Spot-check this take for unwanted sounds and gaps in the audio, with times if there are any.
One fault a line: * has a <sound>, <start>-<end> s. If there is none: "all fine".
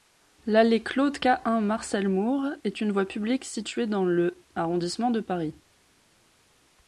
all fine